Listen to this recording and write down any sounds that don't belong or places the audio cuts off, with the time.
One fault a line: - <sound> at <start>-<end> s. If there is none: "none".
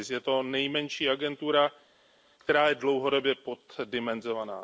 none